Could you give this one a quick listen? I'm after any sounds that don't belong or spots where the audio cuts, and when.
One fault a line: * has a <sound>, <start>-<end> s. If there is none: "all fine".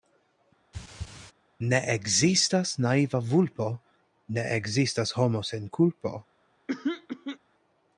* has a throat clearing, 0.7-1.3 s
* has a throat clearing, 6.7-7.4 s